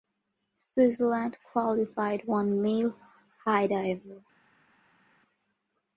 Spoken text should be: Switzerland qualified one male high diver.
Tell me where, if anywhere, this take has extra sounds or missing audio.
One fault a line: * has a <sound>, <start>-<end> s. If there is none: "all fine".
all fine